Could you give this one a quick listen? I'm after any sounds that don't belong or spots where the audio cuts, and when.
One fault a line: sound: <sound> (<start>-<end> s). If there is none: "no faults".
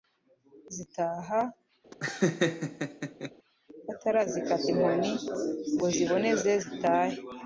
sound: laugh (1.9-3.3 s)